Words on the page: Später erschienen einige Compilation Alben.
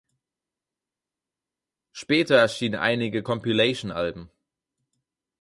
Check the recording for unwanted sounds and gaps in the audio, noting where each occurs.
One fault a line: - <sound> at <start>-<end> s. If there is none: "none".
none